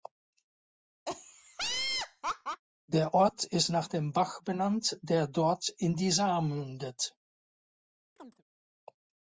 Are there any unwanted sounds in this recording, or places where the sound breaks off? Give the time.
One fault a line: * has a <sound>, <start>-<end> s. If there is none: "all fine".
* has a laugh, 1.1-2.6 s
* has a chirp, 8.2-8.4 s